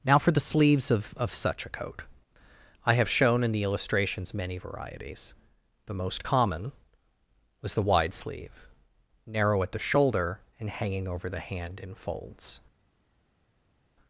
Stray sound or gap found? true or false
false